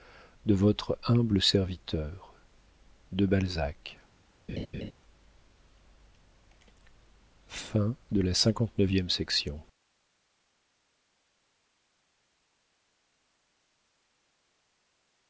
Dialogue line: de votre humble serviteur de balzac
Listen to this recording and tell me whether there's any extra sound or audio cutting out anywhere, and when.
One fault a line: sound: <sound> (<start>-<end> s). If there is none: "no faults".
sound: laugh (4.5-4.9 s)